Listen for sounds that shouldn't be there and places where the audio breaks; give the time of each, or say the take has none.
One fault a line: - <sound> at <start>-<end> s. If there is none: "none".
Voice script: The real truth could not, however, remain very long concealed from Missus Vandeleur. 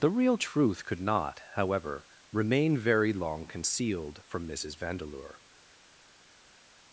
none